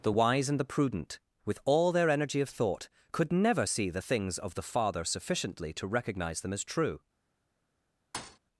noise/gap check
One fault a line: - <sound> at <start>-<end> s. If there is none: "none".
- thud at 8.1-8.4 s